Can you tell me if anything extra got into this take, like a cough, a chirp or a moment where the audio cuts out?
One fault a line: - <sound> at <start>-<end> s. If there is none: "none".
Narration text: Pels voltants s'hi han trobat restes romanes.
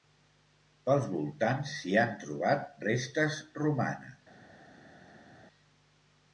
none